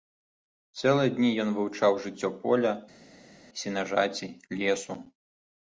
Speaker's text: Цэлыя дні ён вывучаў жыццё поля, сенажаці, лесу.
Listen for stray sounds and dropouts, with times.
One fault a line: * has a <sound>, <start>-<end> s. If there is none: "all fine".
all fine